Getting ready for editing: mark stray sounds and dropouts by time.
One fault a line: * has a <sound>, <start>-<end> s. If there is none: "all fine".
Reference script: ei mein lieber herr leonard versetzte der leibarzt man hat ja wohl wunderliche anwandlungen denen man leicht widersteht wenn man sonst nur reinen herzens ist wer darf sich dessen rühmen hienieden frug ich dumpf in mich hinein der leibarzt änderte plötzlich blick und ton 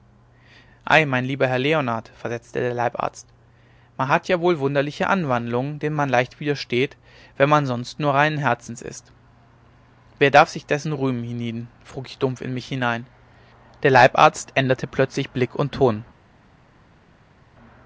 all fine